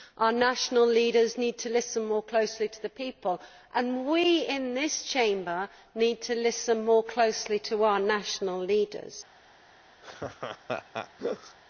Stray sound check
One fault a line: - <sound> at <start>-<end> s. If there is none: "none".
- laugh at 10.0-11.6 s